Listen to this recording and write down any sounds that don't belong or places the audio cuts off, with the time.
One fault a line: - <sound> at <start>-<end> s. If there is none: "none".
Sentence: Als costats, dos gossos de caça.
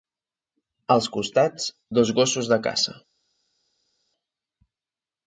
none